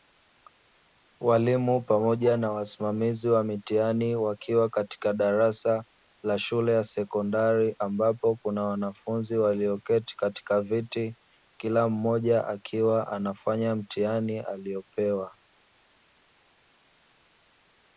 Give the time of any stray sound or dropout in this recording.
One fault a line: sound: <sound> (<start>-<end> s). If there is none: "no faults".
no faults